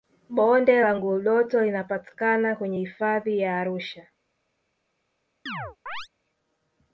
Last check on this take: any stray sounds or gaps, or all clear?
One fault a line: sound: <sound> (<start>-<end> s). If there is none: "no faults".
sound: chirp (5.5-6.1 s)